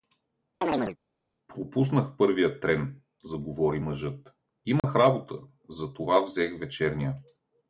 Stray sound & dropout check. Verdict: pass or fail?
fail